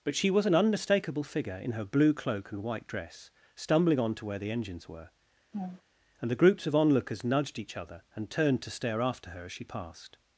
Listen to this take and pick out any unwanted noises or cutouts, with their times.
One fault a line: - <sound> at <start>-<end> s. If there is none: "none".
- laugh at 5.5-5.8 s